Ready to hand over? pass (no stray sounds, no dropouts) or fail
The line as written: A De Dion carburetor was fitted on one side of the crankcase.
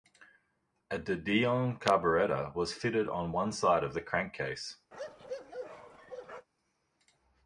fail